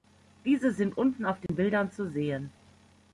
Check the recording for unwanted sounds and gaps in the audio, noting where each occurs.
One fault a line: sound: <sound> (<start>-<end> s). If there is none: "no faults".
sound: dropout (1.5-1.5 s)